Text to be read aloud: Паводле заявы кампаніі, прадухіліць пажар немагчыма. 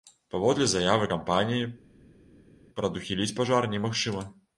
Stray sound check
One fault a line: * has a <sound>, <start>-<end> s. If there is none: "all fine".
all fine